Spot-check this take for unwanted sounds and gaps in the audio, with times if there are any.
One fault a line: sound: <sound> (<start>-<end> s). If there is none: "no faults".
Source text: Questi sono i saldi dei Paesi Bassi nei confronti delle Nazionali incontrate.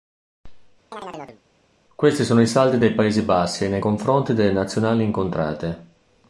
sound: chirp (0.9-1.4 s)